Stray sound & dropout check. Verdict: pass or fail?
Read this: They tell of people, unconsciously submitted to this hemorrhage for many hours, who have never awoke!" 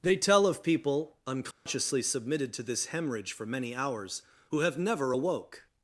fail